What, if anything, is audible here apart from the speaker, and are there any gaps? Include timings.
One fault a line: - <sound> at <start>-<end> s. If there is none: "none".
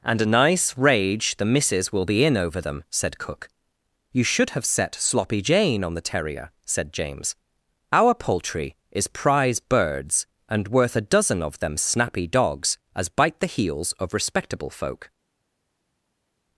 none